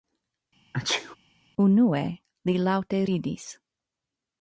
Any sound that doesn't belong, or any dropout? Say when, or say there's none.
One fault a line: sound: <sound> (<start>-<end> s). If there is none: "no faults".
sound: sneeze (0.7-1.2 s)